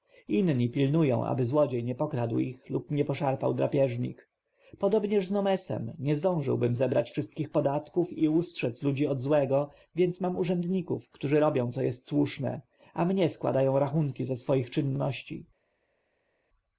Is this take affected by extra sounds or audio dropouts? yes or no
no